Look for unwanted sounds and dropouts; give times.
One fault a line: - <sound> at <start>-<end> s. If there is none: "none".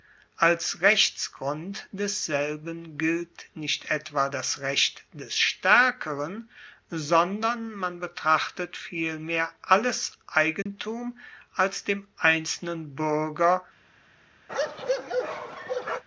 - dropout at 10.6-10.7 s
- bark at 14.5-16.0 s